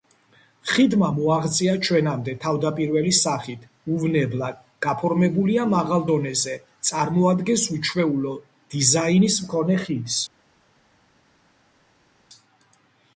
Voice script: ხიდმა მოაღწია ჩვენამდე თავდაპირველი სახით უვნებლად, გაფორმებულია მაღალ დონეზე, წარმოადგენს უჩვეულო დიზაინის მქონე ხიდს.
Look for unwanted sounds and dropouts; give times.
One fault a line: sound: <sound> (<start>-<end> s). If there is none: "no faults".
no faults